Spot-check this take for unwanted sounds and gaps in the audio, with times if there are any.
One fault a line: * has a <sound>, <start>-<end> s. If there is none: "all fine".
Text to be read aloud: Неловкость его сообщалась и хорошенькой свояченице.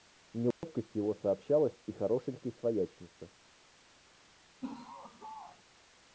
* has a dropout, 0.5-0.6 s
* has a laugh, 4.6-5.6 s